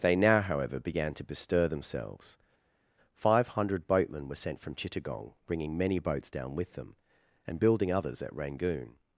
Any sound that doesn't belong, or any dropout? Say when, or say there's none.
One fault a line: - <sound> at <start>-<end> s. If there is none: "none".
none